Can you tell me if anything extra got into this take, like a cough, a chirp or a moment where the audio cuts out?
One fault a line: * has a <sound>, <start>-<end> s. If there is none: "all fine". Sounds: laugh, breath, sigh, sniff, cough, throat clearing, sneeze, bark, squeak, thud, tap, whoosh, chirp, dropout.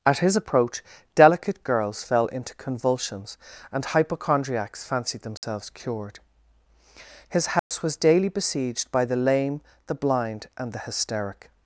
* has a dropout, 5.4-5.4 s
* has a dropout, 7.6-7.7 s